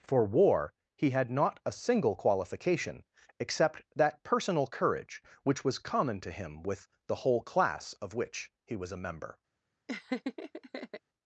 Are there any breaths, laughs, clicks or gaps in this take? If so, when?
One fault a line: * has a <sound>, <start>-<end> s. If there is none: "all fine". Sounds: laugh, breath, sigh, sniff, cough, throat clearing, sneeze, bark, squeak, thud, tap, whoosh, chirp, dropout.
* has a laugh, 9.9-11.0 s